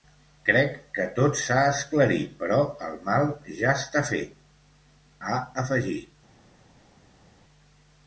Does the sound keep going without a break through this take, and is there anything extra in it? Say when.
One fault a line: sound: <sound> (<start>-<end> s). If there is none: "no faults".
no faults